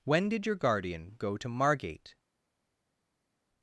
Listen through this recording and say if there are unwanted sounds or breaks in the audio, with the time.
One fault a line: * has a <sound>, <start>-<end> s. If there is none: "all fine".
all fine